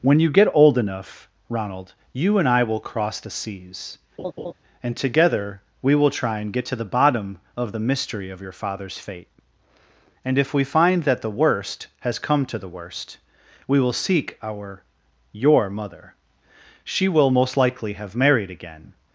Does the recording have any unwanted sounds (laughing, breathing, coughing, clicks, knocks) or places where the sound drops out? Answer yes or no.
yes